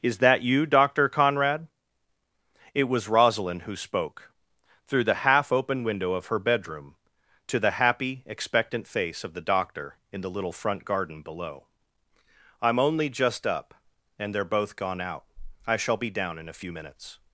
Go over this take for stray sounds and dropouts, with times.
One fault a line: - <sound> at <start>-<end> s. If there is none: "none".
none